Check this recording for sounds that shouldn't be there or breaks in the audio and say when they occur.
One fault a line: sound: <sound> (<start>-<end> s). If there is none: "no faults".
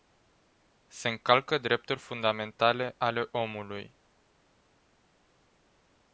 no faults